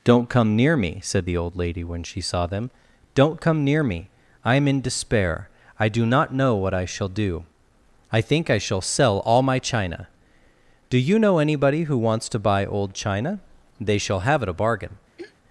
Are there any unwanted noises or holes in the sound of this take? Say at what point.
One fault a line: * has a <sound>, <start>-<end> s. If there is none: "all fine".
* has a throat clearing, 15.2-15.4 s